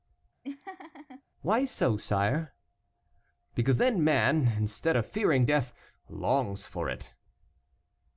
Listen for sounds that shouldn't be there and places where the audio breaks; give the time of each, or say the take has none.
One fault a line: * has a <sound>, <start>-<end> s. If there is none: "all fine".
* has a laugh, 0.4-1.2 s